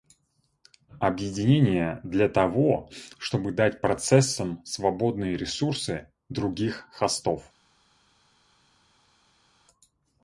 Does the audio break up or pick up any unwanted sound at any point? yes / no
no